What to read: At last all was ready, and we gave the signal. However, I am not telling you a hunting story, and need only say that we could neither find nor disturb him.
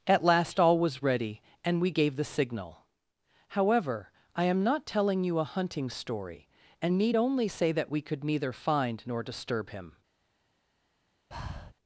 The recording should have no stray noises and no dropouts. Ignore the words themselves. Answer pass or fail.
fail